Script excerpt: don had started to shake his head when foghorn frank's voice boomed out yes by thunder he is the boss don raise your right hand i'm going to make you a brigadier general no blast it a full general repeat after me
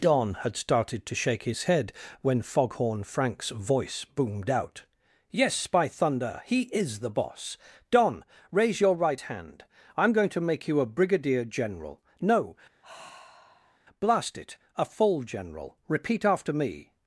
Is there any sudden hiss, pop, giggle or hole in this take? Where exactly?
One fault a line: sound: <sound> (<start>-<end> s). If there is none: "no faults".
sound: sigh (12.8-13.8 s)